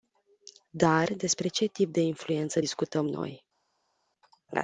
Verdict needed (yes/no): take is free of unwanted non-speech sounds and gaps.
yes